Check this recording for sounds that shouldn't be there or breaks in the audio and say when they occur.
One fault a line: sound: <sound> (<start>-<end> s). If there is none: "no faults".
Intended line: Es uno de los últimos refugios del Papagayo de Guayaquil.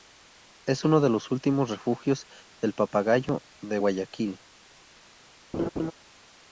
sound: laugh (5.5-5.9 s)